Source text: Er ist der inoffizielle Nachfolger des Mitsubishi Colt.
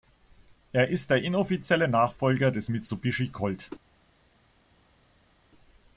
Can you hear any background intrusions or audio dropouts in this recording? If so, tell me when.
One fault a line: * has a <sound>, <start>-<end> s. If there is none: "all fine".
all fine